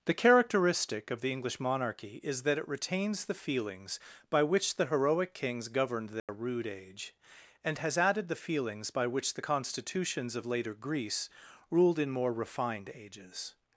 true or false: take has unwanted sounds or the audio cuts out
true